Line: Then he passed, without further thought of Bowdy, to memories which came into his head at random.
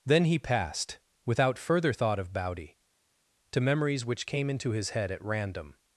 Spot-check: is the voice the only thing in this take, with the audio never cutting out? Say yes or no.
yes